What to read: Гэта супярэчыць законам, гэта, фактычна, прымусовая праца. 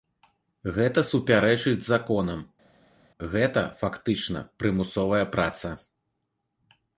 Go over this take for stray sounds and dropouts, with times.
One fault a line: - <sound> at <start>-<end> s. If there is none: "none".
none